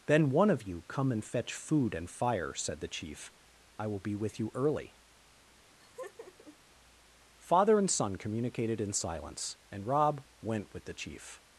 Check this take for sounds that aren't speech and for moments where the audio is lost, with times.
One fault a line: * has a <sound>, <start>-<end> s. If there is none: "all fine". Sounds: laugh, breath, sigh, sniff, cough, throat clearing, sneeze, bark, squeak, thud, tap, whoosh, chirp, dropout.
* has a laugh, 5.7-6.6 s